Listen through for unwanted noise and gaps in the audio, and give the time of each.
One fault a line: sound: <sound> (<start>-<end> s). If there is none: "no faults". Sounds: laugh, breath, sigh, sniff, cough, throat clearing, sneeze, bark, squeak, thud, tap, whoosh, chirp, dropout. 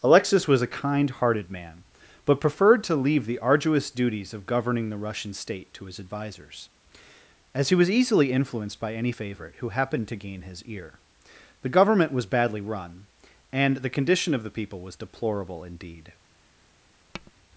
sound: tap (17.1-17.3 s)